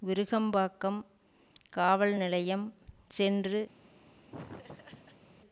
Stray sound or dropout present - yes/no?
yes